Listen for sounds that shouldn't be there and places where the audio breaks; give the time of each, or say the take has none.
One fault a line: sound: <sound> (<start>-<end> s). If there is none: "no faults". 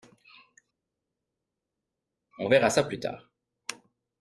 no faults